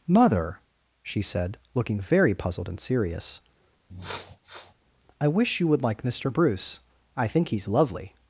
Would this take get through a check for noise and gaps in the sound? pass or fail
fail